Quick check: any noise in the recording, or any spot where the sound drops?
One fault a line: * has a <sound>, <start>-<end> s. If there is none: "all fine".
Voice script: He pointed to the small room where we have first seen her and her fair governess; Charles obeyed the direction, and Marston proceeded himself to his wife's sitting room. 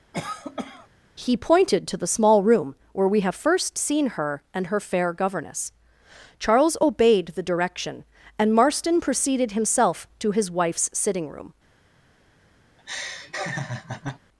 * has a cough, 0.1-0.9 s
* has a laugh, 12.8-14.2 s